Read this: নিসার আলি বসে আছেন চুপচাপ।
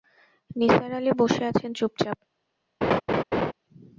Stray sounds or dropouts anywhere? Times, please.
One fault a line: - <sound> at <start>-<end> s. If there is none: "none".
- laugh at 2.8-3.5 s